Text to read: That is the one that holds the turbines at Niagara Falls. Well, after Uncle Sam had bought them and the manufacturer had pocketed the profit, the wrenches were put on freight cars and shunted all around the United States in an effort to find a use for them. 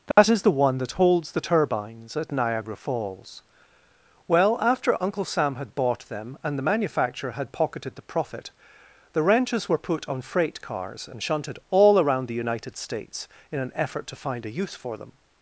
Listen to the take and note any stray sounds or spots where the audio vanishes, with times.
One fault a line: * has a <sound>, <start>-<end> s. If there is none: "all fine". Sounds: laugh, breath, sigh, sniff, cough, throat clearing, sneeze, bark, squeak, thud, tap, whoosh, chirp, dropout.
* has a dropout, 0.1-0.2 s